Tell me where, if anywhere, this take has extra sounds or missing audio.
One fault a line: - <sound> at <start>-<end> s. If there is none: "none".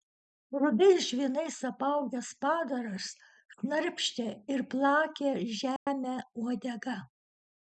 - dropout at 5.8-5.9 s